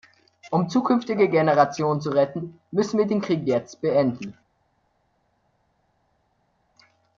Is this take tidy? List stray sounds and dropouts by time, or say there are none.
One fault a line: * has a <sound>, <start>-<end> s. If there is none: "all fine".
all fine